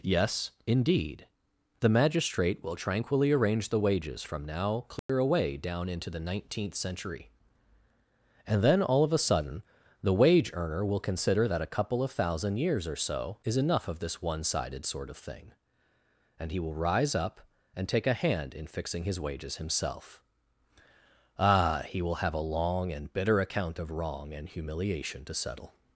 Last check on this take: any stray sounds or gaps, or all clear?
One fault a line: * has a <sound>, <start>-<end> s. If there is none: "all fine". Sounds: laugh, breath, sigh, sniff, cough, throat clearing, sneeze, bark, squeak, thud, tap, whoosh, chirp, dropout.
* has a dropout, 5.0-5.1 s